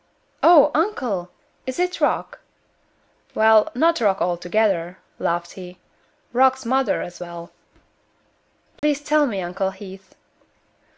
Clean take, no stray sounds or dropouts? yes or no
no